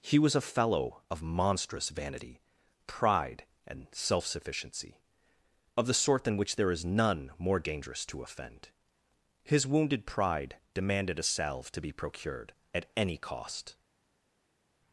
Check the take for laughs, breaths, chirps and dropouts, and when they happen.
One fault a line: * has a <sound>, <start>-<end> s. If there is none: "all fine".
all fine